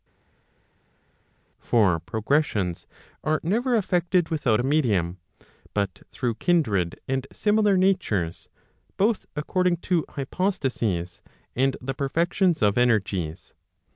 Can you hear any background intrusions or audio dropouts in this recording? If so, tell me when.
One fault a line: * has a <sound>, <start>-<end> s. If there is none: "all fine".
all fine